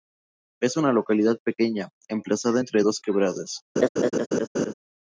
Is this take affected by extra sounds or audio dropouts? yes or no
yes